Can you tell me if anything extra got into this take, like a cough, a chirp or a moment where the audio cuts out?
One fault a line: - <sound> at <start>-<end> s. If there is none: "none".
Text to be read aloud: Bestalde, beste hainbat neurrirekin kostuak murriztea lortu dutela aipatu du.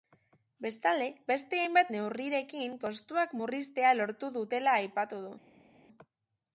none